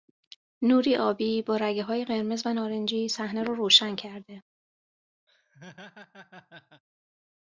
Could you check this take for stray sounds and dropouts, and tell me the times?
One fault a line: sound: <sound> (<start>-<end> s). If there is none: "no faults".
sound: laugh (5.3-6.8 s)